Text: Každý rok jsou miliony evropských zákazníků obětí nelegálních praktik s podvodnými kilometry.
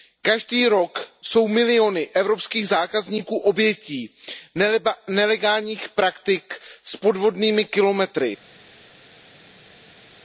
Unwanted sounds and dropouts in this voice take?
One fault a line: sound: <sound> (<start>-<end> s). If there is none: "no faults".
no faults